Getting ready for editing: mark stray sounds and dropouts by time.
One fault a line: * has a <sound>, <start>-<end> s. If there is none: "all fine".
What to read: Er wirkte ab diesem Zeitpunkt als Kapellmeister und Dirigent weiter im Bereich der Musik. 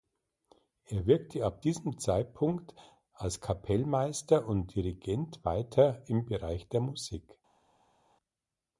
all fine